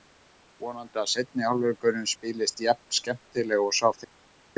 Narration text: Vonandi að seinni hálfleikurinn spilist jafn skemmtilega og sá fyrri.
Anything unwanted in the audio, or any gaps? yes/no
no